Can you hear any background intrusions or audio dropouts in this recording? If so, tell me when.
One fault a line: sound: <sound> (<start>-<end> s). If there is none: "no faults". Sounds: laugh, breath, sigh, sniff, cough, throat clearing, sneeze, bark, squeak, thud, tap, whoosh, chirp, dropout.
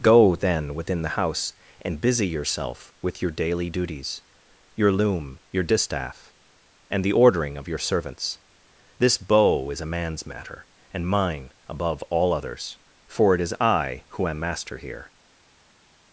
no faults